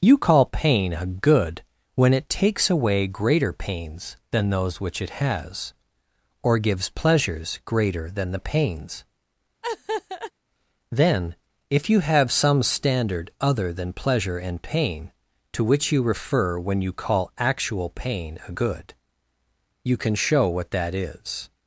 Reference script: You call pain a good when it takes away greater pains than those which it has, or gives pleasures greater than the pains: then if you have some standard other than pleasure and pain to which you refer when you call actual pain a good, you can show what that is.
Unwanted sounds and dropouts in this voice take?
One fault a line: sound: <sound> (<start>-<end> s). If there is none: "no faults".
sound: laugh (9.6-10.3 s)